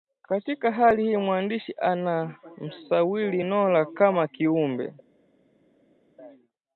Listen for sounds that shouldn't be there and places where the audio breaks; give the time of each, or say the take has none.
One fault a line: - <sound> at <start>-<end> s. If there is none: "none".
none